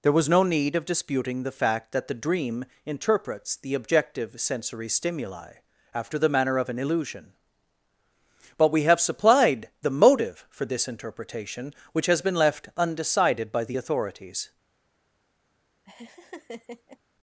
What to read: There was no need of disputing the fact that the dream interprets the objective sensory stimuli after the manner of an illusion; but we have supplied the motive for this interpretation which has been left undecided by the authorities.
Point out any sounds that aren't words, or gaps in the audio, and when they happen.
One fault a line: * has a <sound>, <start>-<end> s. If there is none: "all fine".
* has a laugh, 15.9-17.0 s